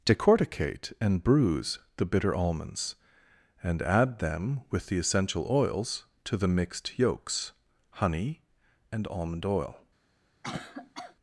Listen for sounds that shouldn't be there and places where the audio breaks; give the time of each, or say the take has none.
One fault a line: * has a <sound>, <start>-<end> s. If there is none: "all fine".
* has a cough, 10.4-11.2 s